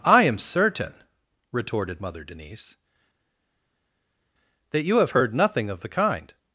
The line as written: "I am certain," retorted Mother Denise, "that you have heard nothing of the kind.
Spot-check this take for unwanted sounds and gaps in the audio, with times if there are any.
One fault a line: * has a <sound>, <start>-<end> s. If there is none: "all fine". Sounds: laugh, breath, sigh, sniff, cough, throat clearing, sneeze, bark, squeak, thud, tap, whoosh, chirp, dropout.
all fine